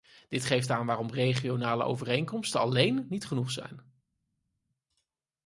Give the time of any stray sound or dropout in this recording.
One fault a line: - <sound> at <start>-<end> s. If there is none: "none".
none